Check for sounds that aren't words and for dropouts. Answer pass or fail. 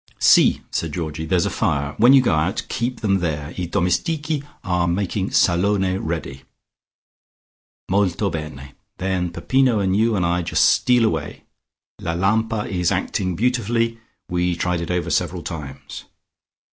pass